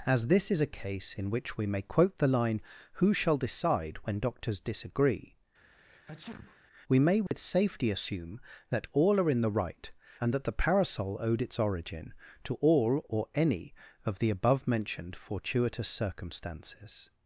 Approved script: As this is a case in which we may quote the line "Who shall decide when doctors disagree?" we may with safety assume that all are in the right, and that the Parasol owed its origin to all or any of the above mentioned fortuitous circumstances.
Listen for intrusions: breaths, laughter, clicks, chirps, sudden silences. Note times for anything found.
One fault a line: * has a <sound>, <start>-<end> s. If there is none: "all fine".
* has a sneeze, 5.6-6.6 s
* has a dropout, 7.3-7.3 s